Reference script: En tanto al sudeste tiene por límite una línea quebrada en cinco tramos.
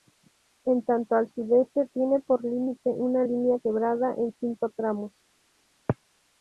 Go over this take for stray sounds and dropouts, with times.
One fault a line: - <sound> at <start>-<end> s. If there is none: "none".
none